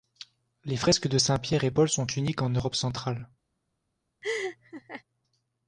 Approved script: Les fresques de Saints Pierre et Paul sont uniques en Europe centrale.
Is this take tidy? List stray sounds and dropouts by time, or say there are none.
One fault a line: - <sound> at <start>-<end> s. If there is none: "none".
- laugh at 4.2-5.0 s